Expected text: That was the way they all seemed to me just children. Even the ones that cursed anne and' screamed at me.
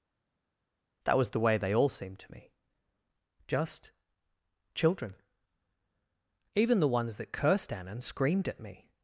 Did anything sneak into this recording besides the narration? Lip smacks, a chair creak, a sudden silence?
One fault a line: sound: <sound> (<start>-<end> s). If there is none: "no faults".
no faults